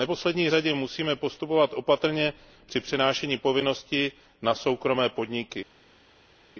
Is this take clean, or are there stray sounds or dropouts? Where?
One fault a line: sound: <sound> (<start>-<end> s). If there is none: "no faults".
no faults